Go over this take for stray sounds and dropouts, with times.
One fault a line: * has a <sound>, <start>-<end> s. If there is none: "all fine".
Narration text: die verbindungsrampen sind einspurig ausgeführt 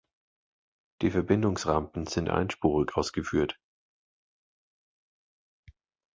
all fine